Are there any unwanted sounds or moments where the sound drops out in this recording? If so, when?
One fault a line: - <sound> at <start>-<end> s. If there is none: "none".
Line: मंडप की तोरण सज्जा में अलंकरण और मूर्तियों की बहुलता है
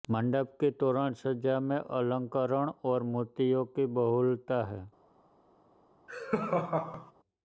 - laugh at 6.1-7.1 s